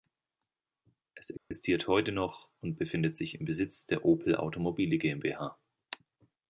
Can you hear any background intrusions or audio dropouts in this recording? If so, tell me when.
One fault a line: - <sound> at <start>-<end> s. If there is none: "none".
- dropout at 1.4-1.5 s